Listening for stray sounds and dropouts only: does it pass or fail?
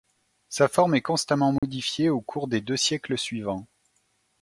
fail